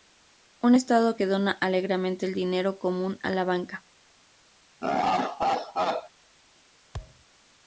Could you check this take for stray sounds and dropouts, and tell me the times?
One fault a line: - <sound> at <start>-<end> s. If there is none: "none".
- laugh at 4.8-6.1 s
- thud at 6.9-7.2 s